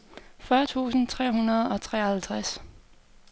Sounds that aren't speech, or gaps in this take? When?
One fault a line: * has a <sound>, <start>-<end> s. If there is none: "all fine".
all fine